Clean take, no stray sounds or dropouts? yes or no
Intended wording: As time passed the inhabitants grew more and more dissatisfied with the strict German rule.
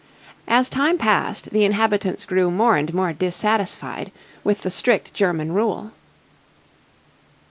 yes